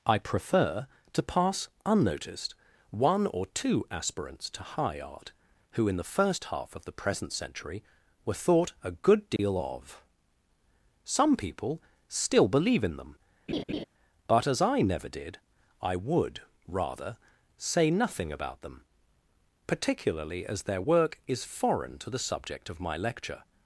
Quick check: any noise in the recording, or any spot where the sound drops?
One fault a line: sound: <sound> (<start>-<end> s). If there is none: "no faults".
sound: dropout (9.4-9.4 s)
sound: laugh (13.5-13.8 s)